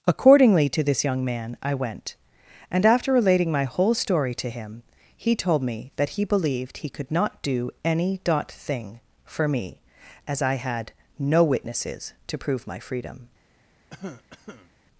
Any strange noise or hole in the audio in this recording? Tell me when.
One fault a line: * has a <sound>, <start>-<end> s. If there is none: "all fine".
* has a cough, 13.9-14.7 s